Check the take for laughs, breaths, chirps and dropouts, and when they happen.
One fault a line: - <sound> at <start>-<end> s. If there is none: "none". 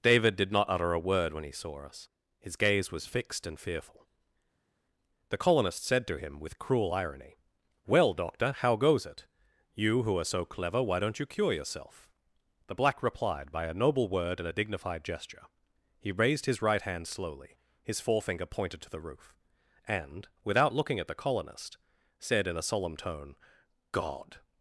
none